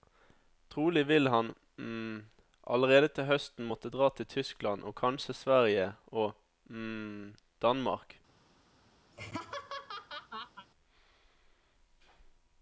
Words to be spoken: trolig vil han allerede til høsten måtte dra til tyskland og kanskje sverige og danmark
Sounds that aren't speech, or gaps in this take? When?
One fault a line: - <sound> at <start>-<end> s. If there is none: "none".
- laugh at 9.1-10.7 s